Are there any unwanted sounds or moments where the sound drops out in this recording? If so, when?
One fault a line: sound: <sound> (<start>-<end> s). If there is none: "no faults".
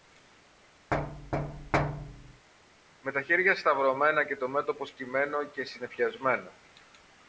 sound: thud (0.9-2.5 s)